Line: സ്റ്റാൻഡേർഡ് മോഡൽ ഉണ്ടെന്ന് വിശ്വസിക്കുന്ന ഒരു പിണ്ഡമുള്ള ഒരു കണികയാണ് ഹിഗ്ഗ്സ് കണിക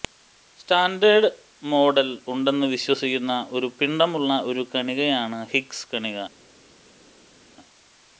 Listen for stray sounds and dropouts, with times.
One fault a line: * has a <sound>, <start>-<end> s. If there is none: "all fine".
all fine